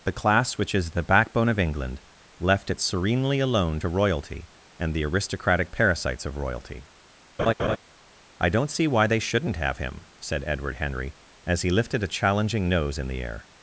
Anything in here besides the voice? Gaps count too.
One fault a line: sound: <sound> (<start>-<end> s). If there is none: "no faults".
sound: laugh (7.4-7.8 s)